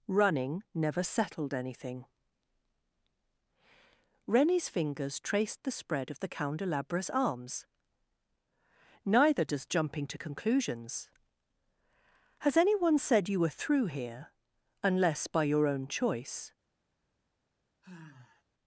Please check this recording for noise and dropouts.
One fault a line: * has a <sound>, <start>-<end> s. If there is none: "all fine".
* has a sigh, 17.8-18.4 s